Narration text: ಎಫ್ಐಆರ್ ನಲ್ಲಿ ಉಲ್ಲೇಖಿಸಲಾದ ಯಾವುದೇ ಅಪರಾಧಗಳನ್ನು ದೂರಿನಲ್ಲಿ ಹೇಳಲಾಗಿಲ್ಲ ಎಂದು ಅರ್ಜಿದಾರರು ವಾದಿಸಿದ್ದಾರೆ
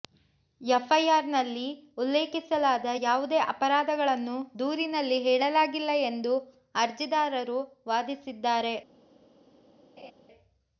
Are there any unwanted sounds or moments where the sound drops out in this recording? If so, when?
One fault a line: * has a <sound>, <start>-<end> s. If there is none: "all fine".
* has a laugh, 10.0-10.1 s